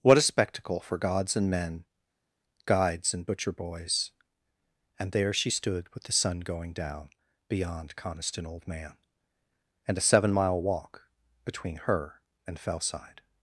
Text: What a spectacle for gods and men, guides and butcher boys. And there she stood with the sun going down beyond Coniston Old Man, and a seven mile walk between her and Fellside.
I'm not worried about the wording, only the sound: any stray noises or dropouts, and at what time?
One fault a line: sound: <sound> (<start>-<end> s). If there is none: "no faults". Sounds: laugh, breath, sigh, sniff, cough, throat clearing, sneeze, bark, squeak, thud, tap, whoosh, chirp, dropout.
no faults